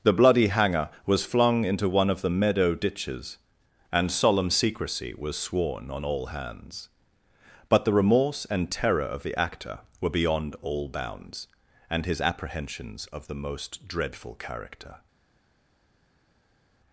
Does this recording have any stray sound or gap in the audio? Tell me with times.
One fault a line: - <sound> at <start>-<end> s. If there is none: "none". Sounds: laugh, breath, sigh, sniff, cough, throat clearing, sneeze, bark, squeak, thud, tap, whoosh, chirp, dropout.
none